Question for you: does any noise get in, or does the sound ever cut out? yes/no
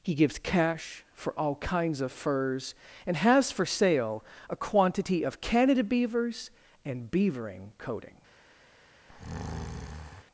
yes